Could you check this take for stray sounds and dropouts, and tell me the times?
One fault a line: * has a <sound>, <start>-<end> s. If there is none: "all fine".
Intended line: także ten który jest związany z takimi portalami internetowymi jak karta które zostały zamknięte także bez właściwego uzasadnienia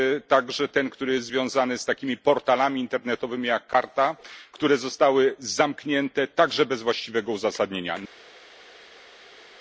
all fine